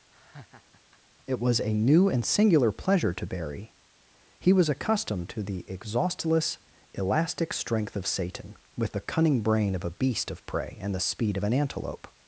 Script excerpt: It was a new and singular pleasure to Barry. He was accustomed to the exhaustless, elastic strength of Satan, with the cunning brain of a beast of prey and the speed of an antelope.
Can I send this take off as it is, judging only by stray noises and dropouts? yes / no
no